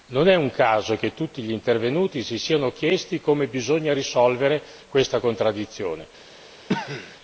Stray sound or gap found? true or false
true